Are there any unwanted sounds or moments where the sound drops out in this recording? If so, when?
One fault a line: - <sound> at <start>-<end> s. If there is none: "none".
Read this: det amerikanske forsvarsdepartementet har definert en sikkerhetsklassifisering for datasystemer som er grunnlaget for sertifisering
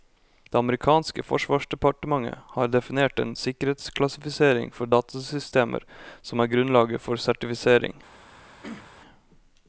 - throat clearing at 8.6-8.9 s